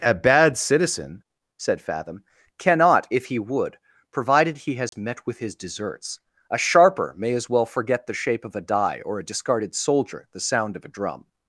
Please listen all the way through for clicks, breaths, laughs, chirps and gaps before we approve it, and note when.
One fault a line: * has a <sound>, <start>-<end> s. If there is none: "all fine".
* has a dropout, 4.9-4.9 s